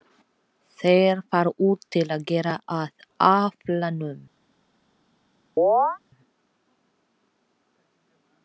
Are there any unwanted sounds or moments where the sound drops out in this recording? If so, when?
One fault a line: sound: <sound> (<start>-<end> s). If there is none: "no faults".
sound: chirp (5.6-6.0 s)